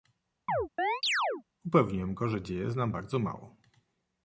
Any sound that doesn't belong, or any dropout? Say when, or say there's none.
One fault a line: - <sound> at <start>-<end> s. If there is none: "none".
- chirp at 0.5-1.4 s